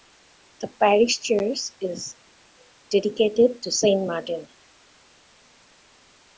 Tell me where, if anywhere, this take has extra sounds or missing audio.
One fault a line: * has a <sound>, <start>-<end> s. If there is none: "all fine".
all fine